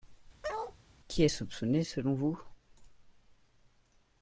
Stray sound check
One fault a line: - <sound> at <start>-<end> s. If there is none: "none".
- bark at 0.4-0.8 s